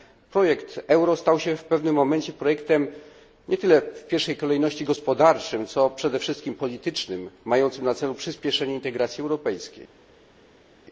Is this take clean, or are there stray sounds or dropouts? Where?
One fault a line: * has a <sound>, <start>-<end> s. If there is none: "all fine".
all fine